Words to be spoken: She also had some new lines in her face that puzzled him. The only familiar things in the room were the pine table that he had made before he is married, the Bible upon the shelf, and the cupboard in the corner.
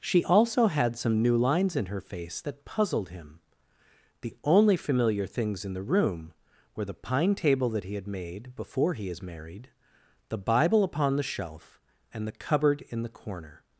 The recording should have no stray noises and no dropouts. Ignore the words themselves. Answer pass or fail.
pass